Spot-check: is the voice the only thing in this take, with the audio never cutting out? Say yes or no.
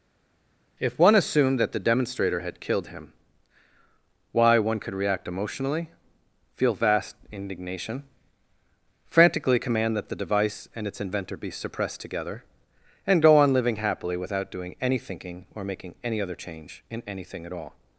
yes